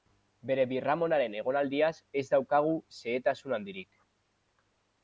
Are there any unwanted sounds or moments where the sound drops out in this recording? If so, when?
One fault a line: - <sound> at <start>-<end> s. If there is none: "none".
none